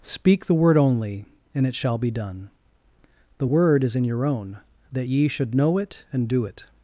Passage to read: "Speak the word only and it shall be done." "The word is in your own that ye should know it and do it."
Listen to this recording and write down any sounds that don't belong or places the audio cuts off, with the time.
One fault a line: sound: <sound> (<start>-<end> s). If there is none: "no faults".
no faults